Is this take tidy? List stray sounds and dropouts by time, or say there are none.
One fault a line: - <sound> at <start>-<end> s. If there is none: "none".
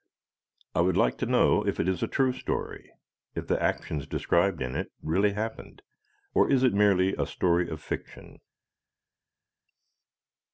none